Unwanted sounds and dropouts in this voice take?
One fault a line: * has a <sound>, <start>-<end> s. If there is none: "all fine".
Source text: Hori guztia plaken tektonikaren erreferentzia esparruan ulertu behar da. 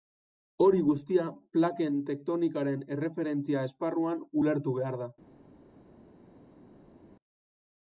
all fine